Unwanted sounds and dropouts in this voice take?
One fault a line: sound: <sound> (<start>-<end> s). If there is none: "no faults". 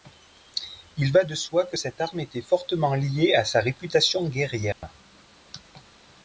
sound: dropout (4.7-4.8 s)